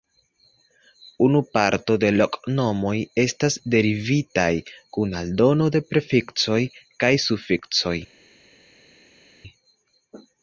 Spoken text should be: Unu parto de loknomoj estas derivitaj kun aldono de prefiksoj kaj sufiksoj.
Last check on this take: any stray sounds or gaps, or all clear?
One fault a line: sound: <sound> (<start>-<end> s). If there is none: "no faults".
no faults